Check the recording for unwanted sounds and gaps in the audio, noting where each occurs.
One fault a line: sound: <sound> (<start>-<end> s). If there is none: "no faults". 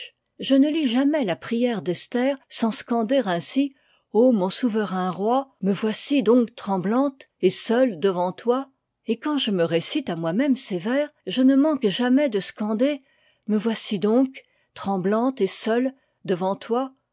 no faults